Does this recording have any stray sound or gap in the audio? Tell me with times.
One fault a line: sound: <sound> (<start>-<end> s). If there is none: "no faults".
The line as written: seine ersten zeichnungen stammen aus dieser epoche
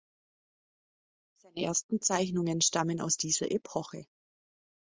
no faults